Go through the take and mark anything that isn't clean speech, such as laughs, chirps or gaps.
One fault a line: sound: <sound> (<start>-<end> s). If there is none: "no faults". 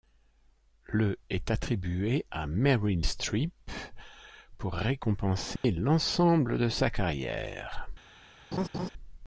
sound: dropout (5.6-5.6 s)
sound: laugh (8.5-8.9 s)